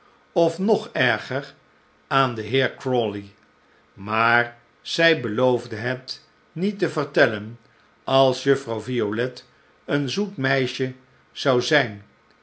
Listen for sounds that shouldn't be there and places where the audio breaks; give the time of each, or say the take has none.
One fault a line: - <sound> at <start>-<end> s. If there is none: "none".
none